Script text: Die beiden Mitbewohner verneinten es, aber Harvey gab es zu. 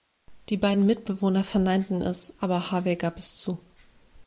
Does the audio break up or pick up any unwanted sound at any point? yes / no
no